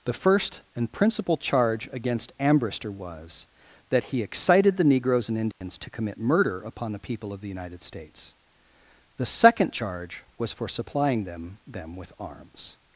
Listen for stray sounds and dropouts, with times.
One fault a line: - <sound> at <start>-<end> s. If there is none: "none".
- dropout at 5.5-5.6 s